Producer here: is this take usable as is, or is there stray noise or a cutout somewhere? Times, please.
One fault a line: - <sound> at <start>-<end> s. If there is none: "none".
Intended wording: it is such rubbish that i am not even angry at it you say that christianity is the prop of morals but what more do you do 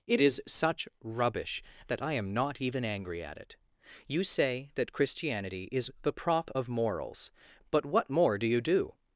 none